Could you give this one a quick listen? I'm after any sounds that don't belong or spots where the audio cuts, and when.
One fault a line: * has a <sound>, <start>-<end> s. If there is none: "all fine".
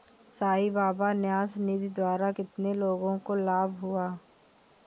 all fine